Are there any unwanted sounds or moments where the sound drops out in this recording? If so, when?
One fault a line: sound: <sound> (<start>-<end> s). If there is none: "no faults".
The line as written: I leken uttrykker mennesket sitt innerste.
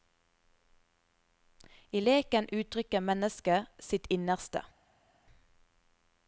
no faults